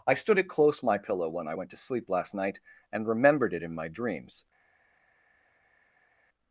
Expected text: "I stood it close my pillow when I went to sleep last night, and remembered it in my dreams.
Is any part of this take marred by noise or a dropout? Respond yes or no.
no